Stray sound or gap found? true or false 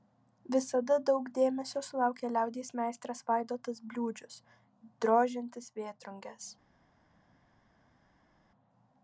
false